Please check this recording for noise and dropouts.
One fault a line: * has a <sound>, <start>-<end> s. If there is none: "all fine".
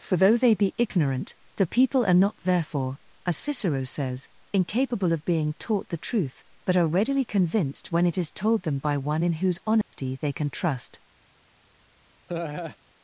* has a dropout, 9.8-9.9 s
* has a laugh, 12.3-12.8 s